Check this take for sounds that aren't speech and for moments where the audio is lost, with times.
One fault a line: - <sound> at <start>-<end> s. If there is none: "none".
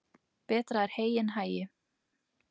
none